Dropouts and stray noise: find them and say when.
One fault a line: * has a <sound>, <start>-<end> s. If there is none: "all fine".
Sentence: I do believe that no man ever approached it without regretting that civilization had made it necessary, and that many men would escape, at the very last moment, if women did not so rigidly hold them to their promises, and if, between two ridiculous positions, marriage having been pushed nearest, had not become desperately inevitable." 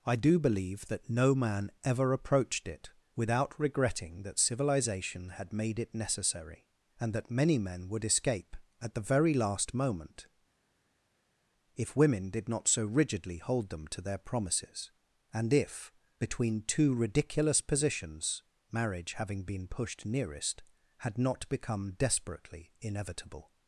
all fine